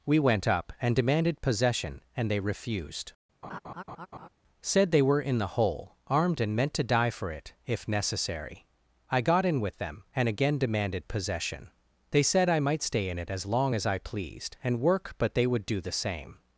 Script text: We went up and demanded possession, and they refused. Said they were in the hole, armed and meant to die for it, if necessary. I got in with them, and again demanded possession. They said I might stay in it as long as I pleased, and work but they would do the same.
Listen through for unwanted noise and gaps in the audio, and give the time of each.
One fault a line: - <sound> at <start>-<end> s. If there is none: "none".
- laugh at 3.4-4.3 s